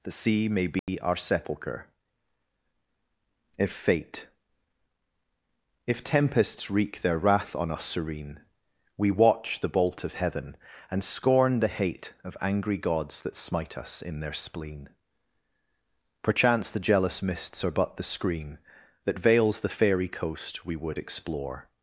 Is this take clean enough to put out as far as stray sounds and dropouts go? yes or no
no